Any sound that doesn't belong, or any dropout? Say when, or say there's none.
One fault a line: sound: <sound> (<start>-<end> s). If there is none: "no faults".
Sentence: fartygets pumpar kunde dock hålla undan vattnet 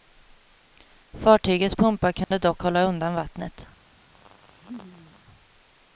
sound: dropout (2.2-2.3 s)
sound: laugh (4.1-5.2 s)